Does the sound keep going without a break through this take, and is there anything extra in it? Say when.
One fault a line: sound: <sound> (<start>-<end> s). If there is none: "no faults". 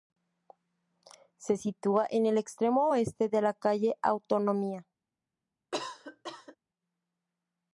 sound: cough (5.7-6.6 s)